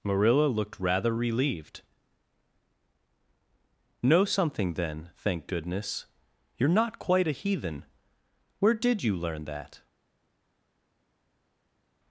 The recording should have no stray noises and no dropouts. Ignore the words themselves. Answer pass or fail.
pass